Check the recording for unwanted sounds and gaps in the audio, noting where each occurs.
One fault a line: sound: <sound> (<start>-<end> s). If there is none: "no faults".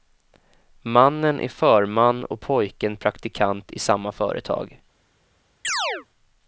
sound: chirp (5.6-6.1 s)